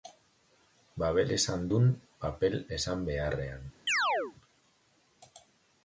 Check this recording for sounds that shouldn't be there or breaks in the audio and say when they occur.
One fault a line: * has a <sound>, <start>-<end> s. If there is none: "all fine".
* has a chirp, 3.9-4.3 s